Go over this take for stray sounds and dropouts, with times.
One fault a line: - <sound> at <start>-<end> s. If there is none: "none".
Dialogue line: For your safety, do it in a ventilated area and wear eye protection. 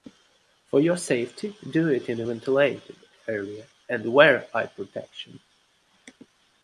none